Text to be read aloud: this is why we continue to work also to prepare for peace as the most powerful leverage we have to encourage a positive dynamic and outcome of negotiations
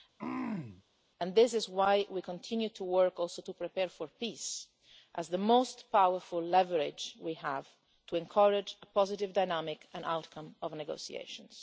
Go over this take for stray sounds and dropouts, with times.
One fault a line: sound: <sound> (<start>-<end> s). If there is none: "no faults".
sound: throat clearing (0.2-0.8 s)